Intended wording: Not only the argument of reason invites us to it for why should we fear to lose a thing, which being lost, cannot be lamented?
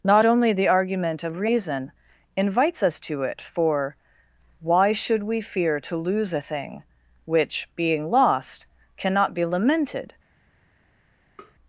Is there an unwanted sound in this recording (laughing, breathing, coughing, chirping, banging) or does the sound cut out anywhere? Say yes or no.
yes